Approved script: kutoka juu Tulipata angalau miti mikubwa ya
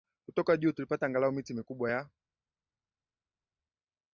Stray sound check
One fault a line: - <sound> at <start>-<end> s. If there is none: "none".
none